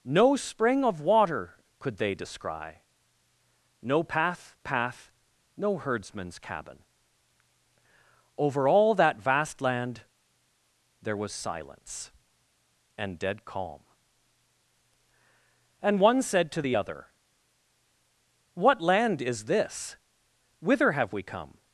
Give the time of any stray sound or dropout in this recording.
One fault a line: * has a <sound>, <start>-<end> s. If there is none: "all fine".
all fine